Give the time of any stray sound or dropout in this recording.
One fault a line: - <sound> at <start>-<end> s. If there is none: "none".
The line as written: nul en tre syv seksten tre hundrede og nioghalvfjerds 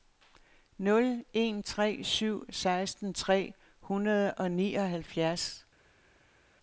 none